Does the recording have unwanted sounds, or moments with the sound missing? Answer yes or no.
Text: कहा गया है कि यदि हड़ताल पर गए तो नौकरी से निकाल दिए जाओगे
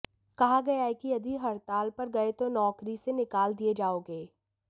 no